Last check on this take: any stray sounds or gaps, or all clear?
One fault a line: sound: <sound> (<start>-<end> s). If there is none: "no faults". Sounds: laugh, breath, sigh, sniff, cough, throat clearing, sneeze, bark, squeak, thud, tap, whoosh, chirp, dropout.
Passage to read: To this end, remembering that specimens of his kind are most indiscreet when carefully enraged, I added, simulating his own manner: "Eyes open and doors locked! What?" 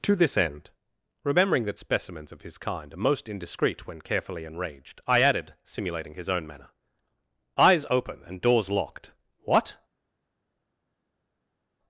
no faults